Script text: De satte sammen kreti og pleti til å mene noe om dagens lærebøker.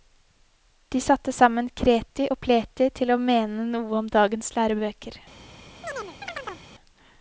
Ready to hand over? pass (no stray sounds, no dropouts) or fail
fail